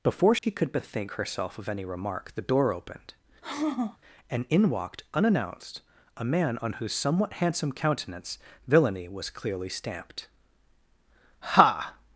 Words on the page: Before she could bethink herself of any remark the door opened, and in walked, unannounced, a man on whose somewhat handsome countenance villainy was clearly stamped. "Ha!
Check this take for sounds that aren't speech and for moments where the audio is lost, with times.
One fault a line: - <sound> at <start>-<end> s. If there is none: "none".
- dropout at 0.4-0.4 s
- sigh at 3.4-4.0 s